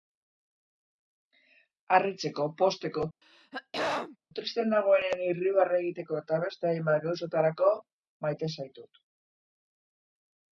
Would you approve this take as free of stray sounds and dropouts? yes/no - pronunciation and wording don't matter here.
no